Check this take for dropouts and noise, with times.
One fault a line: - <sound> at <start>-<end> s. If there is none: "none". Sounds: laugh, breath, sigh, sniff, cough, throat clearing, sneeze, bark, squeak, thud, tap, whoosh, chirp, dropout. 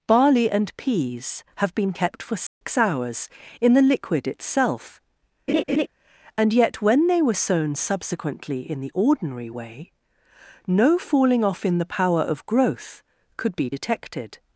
- dropout at 2.5-2.6 s
- laugh at 5.5-5.9 s